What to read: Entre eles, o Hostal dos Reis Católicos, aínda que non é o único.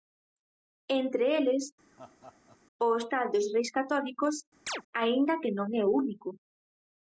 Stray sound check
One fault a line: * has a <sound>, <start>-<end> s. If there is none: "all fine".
* has a laugh, 1.9-2.6 s
* has a chirp, 4.7-4.8 s